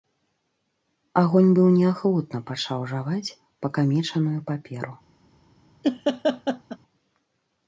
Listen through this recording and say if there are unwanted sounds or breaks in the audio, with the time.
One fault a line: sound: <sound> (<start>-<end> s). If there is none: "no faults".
sound: laugh (5.8-6.8 s)